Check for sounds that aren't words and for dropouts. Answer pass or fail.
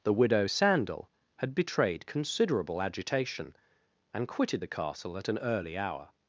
pass